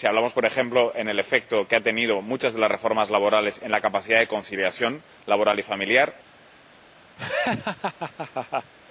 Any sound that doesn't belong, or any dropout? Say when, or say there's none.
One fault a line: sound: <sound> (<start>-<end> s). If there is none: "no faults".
sound: laugh (7.2-8.7 s)